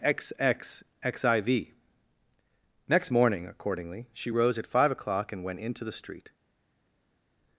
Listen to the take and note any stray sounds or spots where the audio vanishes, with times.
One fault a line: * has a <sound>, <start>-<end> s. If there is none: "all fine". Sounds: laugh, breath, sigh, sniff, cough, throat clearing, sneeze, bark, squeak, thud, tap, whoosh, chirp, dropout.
all fine